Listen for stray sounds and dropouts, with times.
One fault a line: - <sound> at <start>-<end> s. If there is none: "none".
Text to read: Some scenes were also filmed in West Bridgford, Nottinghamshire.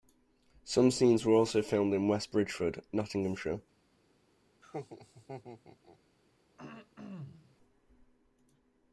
- laugh at 4.6-6.0 s
- throat clearing at 6.6-7.6 s